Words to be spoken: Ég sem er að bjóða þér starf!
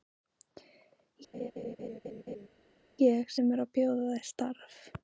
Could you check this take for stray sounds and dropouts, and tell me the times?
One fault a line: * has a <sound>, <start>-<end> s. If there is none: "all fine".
* has a laugh, 1.3-2.5 s